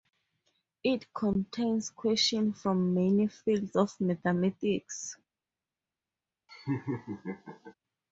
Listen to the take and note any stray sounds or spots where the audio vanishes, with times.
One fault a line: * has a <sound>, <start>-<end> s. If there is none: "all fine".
* has a laugh, 6.5-7.7 s